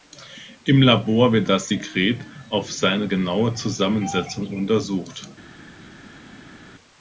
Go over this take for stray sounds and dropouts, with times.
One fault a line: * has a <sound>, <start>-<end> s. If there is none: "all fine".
all fine